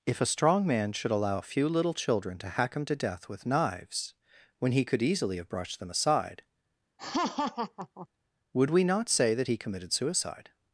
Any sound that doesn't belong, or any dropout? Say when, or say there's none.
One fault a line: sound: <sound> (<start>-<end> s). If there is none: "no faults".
sound: laugh (7.0-8.1 s)